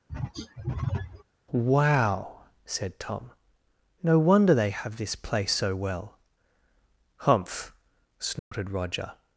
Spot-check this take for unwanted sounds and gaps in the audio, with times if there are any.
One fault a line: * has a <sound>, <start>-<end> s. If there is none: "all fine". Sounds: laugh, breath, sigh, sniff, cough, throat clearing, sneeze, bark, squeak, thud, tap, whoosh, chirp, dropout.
* has a throat clearing, 0.1-1.2 s
* has a dropout, 8.4-8.5 s